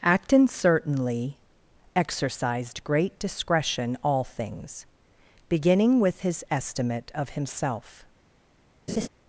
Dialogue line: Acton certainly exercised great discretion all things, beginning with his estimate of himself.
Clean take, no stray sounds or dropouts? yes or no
no